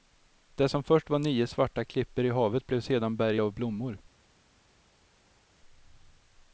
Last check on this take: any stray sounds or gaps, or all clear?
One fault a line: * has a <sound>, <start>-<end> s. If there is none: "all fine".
all fine